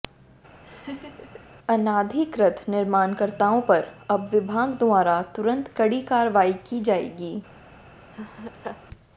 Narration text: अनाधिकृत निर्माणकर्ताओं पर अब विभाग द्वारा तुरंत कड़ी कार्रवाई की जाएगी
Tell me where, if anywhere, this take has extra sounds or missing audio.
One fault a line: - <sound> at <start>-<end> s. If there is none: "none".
- laugh at 0.6-1.5 s
- laugh at 8.1-8.8 s